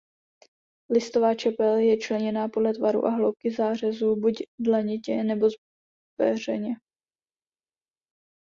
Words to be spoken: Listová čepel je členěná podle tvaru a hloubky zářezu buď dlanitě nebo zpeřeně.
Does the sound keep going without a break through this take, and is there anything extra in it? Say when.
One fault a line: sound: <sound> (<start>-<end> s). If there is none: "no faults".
no faults